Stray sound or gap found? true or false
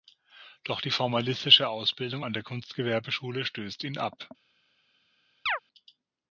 true